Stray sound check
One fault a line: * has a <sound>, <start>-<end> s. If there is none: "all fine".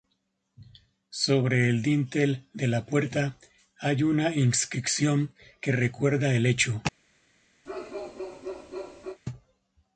* has a bark, 7.6-9.2 s